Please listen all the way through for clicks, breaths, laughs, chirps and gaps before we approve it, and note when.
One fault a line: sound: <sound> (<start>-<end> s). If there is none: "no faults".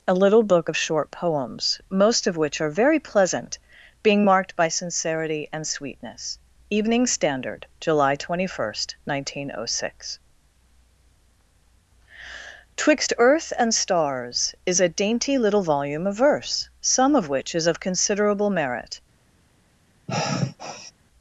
sound: sigh (20.1-20.9 s)